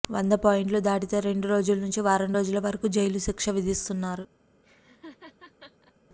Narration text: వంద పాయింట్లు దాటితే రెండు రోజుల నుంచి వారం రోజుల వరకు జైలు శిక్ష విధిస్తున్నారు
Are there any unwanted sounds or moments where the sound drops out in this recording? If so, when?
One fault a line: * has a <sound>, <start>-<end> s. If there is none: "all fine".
* has a laugh, 4.6-5.9 s